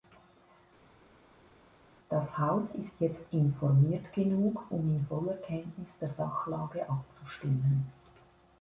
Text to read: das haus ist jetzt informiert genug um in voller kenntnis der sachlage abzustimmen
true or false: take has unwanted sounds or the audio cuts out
false